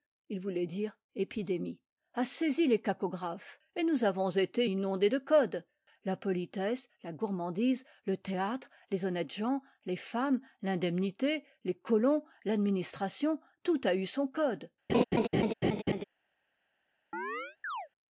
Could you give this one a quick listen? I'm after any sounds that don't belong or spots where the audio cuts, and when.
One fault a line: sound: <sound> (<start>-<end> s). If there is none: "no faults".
sound: laugh (14.9-16.0 s)
sound: chirp (17.1-17.9 s)